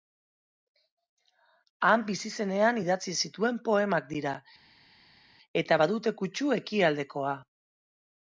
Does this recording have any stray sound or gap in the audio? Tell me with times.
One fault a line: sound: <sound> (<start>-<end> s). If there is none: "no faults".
no faults